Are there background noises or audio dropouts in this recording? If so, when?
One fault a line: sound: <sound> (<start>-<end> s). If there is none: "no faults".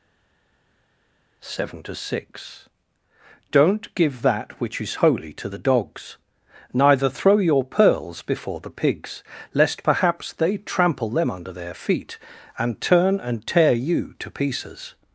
no faults